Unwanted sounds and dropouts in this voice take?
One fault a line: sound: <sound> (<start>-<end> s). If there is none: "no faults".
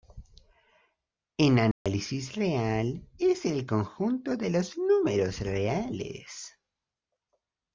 sound: dropout (1.7-1.9 s)